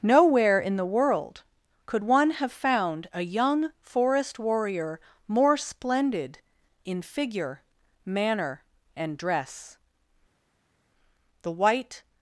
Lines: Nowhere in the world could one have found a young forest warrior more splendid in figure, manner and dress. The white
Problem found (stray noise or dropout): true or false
false